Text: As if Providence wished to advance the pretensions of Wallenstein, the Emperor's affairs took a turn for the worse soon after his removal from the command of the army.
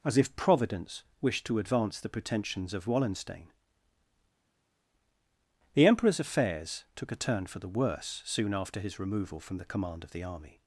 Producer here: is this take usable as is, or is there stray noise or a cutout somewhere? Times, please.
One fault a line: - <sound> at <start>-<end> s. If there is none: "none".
none